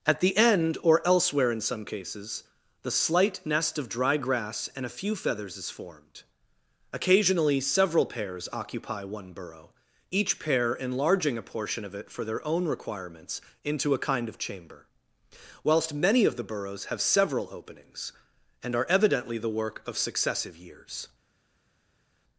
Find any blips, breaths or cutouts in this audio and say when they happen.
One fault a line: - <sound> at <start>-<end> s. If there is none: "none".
none